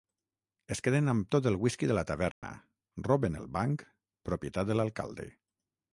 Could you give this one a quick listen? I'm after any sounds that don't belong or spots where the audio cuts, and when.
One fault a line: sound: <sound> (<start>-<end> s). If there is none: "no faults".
sound: dropout (2.3-2.4 s)